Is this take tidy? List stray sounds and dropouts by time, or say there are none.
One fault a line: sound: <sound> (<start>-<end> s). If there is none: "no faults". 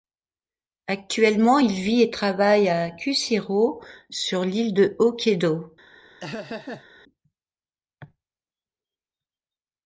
sound: laugh (6.2-6.8 s)